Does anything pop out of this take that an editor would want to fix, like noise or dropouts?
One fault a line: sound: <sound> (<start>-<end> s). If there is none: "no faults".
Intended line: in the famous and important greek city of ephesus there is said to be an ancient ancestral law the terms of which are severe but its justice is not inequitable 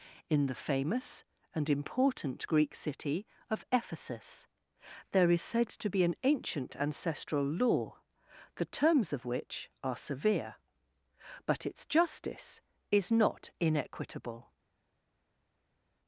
no faults